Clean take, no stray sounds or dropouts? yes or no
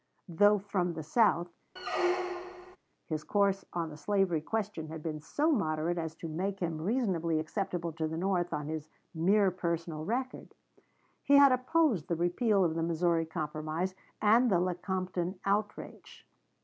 no